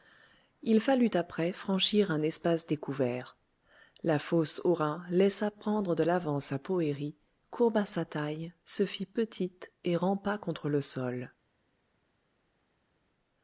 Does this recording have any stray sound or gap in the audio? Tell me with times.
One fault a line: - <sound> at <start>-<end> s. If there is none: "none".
none